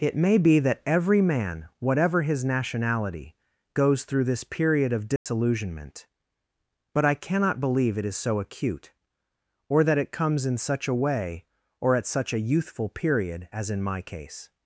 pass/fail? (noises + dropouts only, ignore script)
fail